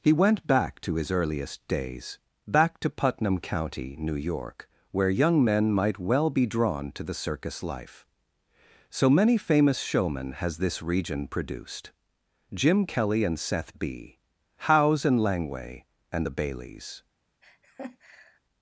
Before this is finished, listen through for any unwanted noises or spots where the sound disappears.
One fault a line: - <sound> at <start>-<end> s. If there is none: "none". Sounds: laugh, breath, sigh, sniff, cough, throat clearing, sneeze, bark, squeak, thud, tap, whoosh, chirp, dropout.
- laugh at 17.4-18.4 s